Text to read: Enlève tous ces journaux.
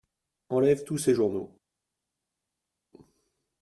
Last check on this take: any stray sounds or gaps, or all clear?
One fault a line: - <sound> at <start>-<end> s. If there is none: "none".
none